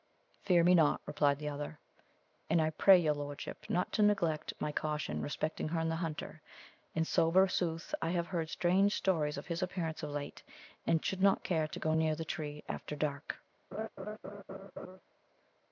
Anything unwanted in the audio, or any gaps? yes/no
yes